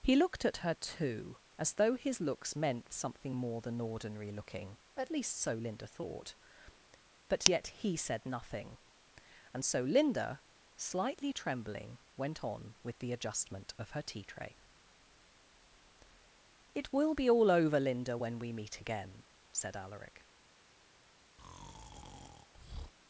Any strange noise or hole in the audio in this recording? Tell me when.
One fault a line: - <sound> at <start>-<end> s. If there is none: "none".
- breath at 21.4-22.9 s